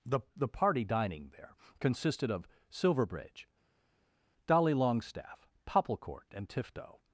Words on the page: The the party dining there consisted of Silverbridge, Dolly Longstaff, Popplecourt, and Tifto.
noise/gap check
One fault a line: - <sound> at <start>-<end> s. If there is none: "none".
none